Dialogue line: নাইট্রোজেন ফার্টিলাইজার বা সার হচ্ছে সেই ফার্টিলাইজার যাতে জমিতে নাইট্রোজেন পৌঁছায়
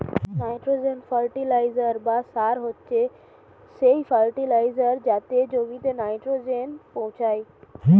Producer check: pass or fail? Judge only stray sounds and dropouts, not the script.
pass